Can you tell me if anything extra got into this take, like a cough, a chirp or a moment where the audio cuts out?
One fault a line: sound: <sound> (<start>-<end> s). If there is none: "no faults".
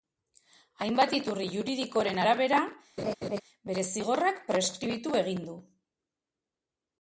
sound: laugh (3.0-3.4 s)